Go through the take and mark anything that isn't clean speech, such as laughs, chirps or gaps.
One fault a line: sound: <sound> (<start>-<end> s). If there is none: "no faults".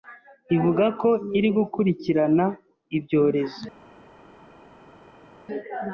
no faults